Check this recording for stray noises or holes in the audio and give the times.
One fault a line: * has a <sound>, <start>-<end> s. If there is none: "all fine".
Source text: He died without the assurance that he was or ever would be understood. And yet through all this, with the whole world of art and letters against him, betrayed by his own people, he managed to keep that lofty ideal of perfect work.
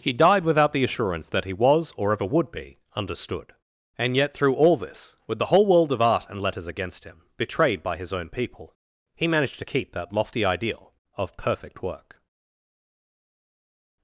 all fine